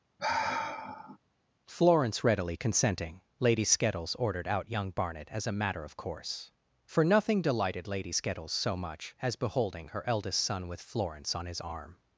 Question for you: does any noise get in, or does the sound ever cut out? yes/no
yes